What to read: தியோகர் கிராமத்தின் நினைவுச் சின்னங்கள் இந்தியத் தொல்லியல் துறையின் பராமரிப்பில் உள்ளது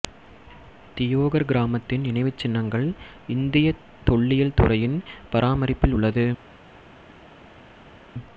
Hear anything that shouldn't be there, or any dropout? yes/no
no